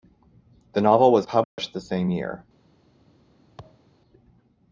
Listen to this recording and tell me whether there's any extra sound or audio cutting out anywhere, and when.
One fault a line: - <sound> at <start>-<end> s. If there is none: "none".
- dropout at 1.4-1.6 s
- thud at 3.6-3.9 s